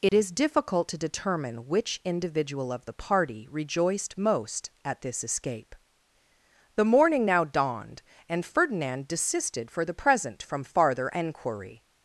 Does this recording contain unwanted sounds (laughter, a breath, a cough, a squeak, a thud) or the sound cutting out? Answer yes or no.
yes